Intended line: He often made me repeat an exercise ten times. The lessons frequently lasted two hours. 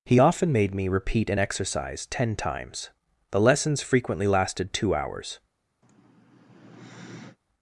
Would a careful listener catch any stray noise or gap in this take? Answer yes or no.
yes